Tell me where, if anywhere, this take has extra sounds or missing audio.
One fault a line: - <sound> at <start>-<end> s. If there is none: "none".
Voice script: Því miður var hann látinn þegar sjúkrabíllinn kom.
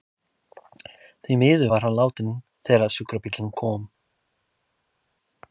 none